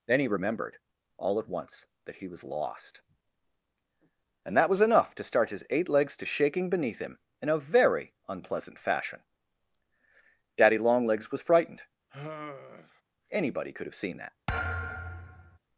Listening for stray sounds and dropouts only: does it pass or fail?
fail